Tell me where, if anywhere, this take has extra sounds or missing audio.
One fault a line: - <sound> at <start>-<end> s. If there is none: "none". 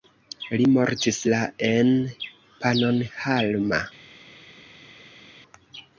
none